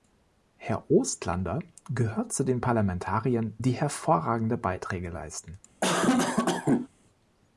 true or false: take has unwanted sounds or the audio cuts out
true